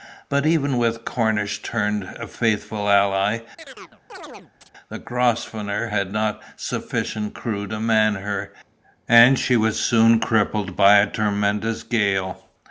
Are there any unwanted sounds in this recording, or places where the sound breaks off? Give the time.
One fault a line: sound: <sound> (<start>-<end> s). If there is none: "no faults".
sound: chirp (3.6-4.7 s)